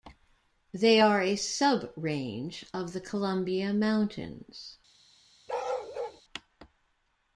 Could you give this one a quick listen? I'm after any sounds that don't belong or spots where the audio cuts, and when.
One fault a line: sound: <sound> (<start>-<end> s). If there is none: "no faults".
sound: bark (5.5-6.2 s)